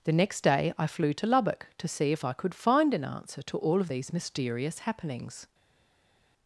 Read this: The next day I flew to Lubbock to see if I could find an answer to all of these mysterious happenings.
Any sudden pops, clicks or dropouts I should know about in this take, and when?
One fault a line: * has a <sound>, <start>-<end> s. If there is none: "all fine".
all fine